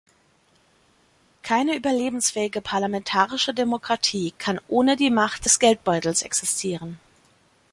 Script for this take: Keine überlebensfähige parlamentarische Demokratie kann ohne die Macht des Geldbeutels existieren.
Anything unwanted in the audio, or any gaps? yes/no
no